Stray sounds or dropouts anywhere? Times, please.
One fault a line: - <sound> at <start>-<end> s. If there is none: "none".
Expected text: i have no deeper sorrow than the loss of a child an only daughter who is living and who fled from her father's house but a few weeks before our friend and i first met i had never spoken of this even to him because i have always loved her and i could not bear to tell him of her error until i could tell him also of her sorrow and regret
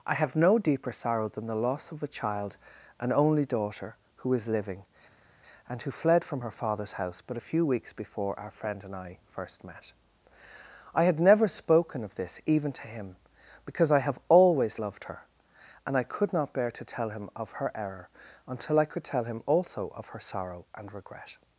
none